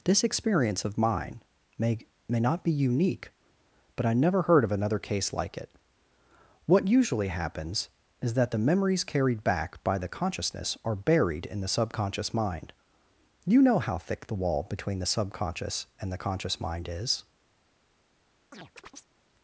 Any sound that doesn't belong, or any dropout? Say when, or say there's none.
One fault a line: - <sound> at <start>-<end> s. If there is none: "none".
- chirp at 18.5-19.1 s